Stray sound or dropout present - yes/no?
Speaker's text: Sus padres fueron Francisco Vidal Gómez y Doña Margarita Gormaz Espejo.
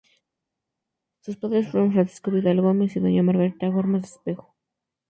no